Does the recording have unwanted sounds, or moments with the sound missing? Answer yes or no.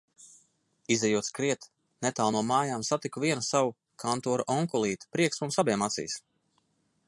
no